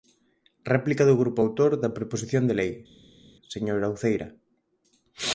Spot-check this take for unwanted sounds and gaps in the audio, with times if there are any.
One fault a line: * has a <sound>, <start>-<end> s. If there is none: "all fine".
all fine